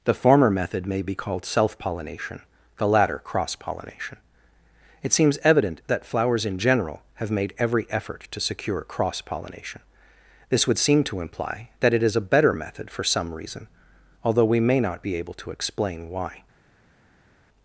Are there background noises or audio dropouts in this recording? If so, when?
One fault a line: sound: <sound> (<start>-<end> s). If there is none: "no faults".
no faults